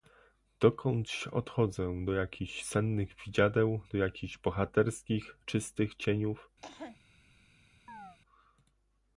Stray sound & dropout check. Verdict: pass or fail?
fail